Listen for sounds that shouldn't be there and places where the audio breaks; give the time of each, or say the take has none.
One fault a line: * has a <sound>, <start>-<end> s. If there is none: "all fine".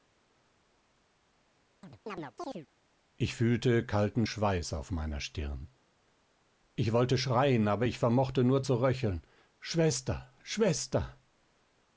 * has a chirp, 1.8-2.7 s